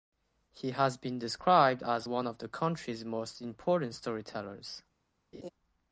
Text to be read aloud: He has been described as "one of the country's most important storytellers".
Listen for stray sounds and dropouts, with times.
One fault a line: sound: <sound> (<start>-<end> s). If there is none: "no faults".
sound: laugh (5.3-5.5 s)